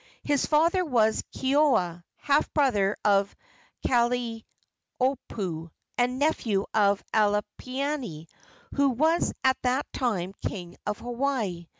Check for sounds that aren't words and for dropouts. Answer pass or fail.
pass